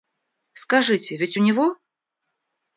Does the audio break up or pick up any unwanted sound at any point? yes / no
no